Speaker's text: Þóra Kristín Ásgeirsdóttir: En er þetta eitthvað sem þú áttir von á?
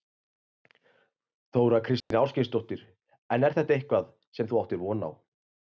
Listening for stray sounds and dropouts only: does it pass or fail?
fail